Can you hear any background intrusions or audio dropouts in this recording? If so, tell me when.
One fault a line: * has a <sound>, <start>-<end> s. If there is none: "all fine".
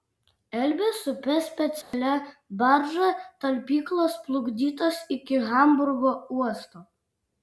* has a dropout, 1.8-1.9 s